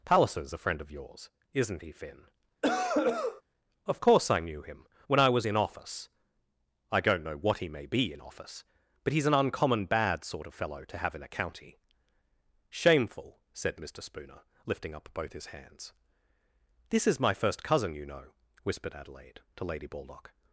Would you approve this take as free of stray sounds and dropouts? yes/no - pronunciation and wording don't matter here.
no